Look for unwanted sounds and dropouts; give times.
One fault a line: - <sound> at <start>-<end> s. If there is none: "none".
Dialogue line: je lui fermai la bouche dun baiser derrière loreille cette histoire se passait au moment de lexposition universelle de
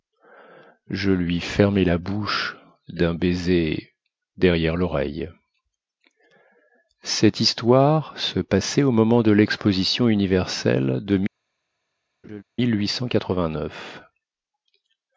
- laugh at 12.2-12.4 s